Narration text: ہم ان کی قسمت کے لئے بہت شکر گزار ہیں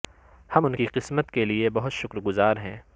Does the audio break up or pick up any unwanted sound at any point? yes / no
no